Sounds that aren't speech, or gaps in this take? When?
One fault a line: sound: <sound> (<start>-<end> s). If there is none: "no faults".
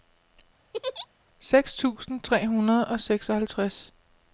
sound: laugh (0.7-1.1 s)